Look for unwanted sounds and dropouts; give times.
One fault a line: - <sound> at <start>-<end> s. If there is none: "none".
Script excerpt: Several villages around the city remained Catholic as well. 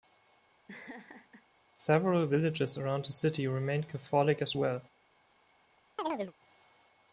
- laugh at 0.7-1.4 s
- chirp at 6.0-6.3 s